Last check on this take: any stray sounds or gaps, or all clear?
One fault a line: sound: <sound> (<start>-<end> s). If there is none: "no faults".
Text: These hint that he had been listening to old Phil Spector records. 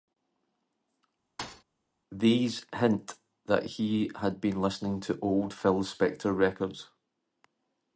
sound: thud (1.4-1.6 s)